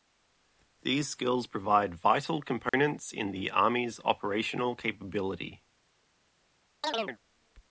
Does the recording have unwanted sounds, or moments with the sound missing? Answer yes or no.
yes